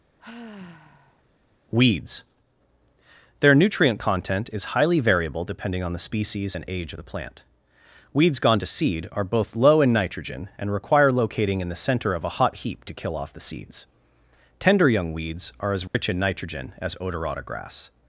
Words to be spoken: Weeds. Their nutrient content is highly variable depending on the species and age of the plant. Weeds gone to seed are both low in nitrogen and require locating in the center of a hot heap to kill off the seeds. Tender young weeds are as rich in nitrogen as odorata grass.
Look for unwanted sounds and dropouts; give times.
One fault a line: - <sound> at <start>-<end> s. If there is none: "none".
- sigh at 0.2-1.2 s
- dropout at 15.9-15.9 s